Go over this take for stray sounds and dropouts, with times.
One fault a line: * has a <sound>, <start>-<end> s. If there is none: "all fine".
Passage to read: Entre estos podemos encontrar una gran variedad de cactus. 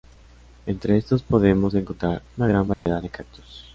* has a dropout, 2.7-2.9 s